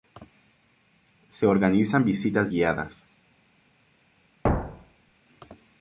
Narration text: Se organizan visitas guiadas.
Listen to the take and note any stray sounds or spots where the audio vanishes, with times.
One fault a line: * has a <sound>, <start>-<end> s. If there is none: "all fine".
* has a thud, 4.4-5.1 s